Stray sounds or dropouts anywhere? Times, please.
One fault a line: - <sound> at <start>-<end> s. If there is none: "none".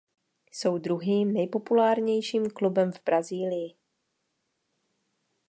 none